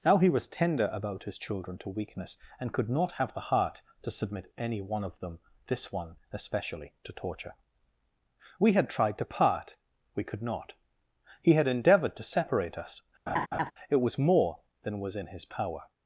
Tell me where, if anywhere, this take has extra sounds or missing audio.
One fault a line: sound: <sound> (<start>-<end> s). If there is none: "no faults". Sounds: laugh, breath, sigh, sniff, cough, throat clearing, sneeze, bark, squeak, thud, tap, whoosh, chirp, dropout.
sound: laugh (13.3-13.7 s)